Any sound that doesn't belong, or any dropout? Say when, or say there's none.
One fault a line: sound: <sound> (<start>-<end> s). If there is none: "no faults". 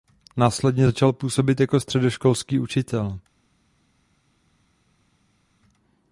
no faults